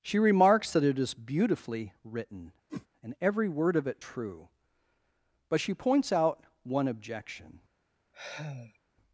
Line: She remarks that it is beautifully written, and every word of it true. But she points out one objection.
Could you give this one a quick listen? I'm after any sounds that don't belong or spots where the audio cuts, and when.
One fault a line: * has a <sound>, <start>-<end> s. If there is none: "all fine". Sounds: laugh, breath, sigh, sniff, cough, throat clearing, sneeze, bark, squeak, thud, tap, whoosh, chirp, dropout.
* has a whoosh, 2.7-2.9 s
* has a sigh, 8.1-8.8 s